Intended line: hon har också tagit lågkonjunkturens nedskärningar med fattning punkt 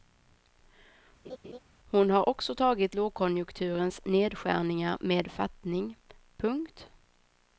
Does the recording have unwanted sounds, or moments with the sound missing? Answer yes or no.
yes